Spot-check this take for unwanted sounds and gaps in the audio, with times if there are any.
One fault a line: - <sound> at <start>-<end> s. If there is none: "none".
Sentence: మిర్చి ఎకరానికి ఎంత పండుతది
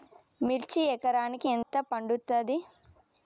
- dropout at 1.6-1.7 s